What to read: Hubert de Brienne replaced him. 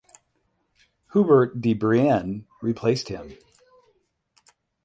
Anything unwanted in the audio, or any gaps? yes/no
no